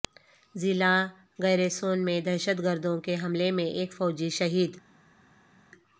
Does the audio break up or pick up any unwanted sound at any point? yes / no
no